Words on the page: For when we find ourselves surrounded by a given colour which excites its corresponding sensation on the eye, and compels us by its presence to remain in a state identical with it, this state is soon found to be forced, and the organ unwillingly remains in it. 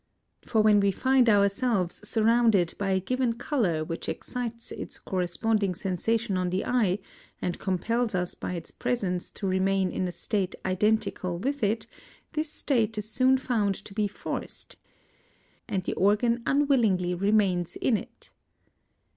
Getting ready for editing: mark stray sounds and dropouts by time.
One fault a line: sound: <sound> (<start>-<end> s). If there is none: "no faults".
no faults